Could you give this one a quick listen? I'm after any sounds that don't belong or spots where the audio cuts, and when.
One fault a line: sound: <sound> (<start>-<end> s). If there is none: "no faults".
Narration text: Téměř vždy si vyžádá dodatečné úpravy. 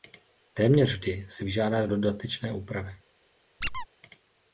sound: squeak (3.6-3.9 s)